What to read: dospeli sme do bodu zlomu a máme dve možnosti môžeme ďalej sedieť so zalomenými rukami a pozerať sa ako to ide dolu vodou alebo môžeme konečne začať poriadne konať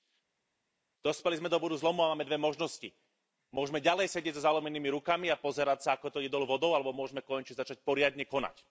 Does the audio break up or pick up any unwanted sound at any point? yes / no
no